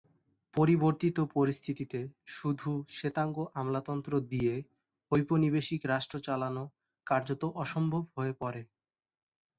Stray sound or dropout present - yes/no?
no